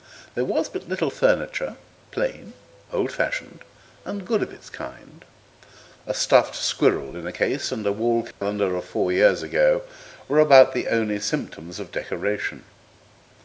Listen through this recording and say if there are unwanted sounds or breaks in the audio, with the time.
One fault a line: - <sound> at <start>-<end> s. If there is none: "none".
- dropout at 8.3-8.4 s